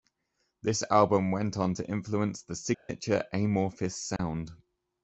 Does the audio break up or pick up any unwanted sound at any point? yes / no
yes